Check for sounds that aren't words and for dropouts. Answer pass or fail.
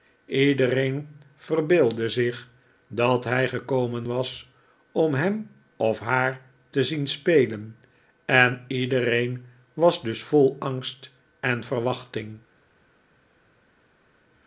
pass